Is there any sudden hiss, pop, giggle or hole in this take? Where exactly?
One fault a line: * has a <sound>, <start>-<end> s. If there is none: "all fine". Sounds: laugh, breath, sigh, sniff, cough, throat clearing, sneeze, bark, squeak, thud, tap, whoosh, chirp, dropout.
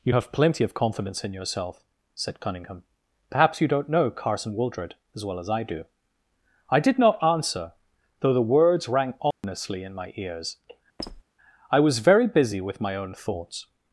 * has a dropout, 9.3-9.4 s
* has a squeak, 11.0-11.2 s